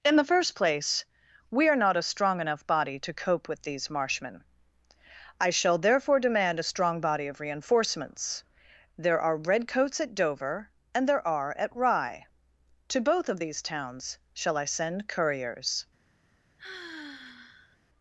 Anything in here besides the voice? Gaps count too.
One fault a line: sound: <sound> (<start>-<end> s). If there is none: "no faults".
sound: sigh (16.6-17.8 s)